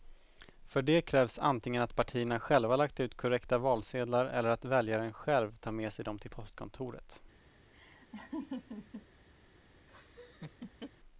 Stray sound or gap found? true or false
true